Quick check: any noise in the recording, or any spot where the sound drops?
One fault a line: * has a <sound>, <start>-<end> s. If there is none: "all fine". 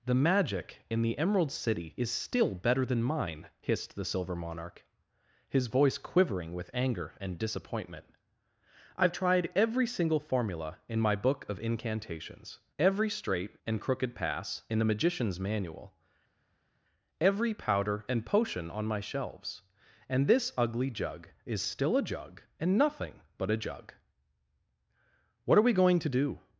all fine